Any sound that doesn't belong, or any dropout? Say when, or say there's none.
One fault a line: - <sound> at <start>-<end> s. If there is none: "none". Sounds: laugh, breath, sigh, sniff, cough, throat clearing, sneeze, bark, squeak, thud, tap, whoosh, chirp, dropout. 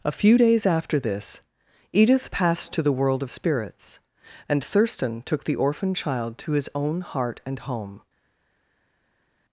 none